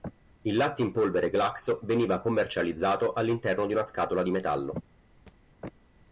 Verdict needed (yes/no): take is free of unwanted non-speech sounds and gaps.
no